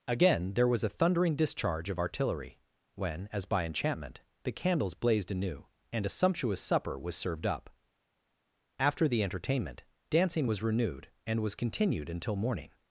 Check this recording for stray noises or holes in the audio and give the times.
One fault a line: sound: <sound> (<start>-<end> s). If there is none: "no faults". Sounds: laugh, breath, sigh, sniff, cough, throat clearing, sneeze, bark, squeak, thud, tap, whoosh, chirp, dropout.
no faults